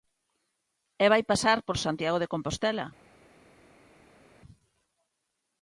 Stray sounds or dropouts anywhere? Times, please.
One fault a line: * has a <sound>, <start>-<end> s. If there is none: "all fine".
all fine